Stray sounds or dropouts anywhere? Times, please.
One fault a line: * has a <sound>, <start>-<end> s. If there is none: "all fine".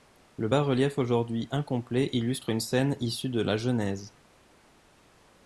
all fine